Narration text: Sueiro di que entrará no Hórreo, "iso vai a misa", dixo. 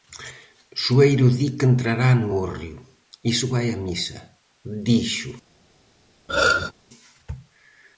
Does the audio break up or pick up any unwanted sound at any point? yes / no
yes